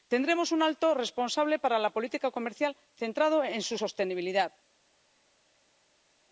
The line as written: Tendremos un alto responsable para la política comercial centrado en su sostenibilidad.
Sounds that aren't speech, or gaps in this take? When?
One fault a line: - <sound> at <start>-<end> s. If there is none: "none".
none